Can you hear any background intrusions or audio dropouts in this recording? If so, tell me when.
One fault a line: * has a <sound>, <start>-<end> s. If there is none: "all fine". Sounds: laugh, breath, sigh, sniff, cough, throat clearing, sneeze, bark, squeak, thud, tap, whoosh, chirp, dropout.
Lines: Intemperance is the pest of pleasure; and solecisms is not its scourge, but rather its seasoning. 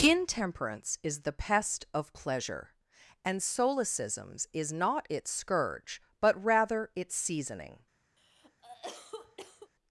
* has a cough, 8.2-9.7 s